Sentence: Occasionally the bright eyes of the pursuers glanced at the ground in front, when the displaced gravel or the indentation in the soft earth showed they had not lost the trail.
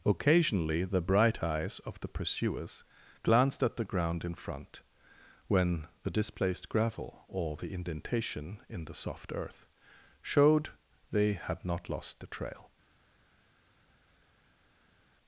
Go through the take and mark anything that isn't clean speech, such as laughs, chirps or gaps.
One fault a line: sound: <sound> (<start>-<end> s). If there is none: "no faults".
no faults